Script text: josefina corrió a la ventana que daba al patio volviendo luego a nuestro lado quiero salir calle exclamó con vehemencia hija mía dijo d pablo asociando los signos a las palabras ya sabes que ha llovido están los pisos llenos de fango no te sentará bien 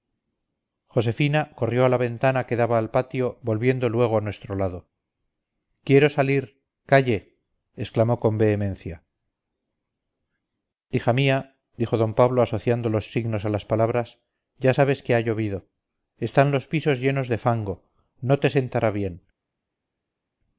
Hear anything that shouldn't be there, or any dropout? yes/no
no